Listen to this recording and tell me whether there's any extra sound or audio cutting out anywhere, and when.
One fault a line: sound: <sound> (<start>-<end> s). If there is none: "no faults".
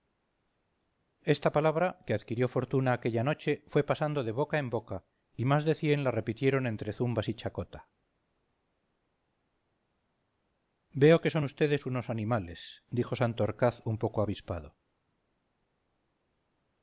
no faults